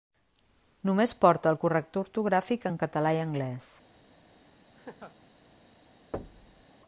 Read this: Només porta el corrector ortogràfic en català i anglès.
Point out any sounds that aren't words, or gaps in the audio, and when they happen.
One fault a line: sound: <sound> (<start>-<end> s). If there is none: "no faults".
sound: laugh (4.8-5.2 s)
sound: thud (6.1-6.6 s)